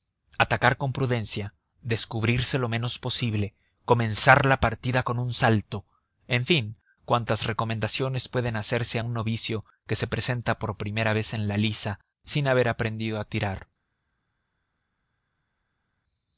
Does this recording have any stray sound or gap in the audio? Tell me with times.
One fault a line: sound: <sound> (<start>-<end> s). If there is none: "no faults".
no faults